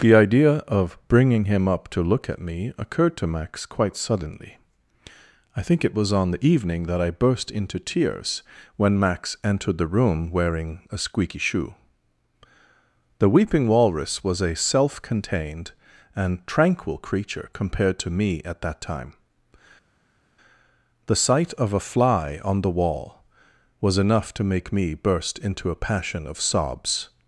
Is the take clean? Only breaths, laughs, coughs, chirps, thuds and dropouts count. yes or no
yes